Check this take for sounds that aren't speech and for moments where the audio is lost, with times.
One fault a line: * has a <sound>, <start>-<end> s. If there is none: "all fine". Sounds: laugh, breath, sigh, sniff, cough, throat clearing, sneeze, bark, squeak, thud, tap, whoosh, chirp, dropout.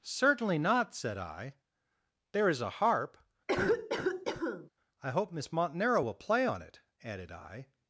* has a cough, 3.5-4.7 s